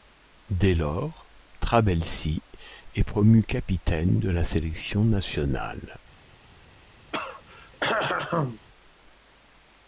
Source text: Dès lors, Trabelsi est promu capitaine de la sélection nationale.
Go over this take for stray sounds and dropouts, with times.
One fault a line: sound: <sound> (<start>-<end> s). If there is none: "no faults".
sound: throat clearing (7.1-8.6 s)